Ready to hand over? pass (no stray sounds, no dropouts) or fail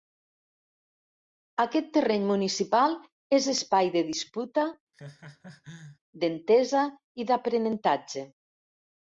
fail